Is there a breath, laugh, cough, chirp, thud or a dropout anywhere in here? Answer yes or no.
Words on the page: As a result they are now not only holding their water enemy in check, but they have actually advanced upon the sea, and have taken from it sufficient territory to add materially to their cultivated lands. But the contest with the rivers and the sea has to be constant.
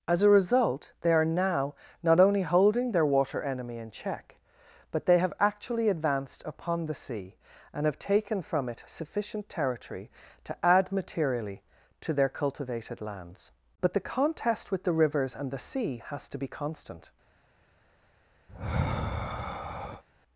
yes